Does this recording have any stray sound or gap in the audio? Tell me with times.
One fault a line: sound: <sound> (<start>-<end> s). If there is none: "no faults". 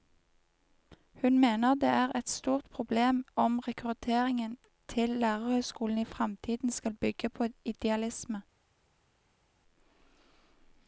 no faults